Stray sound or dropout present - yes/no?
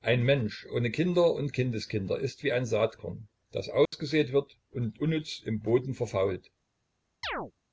yes